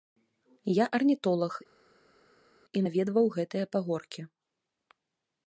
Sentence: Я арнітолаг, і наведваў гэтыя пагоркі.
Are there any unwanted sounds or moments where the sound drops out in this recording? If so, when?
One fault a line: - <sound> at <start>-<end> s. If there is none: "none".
none